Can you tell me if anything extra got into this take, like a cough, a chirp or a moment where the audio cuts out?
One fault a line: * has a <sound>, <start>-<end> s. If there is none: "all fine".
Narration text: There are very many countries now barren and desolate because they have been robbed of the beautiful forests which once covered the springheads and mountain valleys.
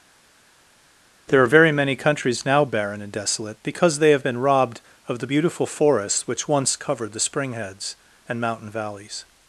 all fine